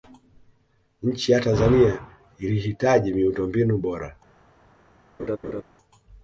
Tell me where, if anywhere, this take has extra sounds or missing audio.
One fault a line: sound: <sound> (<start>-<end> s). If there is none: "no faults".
sound: laugh (5.2-5.6 s)